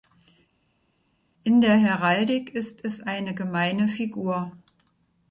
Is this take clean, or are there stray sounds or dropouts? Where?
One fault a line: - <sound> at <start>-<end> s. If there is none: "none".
none